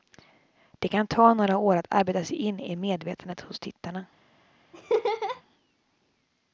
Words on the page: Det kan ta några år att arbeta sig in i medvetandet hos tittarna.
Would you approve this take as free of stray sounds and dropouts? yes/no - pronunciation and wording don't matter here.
no